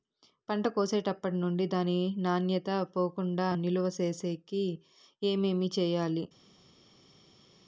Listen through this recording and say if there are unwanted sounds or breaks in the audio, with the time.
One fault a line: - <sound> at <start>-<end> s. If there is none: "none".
none